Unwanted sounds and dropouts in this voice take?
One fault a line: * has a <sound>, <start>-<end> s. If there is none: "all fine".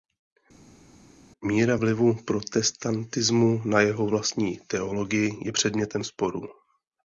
all fine